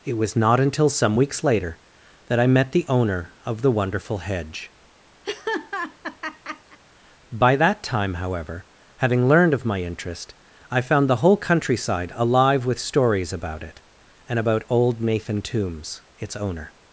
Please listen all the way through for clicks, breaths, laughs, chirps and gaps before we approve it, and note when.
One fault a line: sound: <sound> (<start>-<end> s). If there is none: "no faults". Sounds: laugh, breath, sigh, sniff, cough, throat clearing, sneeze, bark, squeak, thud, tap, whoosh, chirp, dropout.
sound: laugh (5.2-6.8 s)